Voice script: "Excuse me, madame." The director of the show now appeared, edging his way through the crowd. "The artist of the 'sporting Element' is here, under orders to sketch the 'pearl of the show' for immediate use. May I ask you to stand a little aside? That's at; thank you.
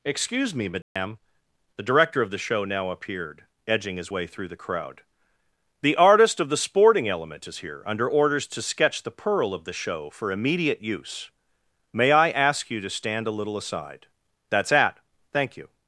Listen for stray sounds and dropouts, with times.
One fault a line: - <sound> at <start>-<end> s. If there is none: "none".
- dropout at 0.8-1.0 s